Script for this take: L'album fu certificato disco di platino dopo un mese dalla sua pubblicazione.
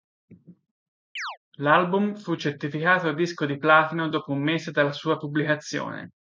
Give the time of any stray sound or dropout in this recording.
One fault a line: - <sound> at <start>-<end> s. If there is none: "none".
- chirp at 1.2-1.4 s